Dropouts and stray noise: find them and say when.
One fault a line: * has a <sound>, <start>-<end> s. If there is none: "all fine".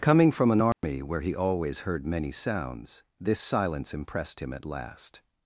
* has a dropout, 0.7-0.8 s